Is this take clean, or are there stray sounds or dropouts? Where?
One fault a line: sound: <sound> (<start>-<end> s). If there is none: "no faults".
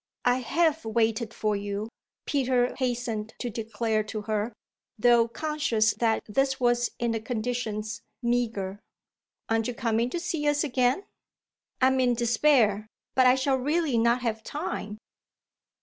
no faults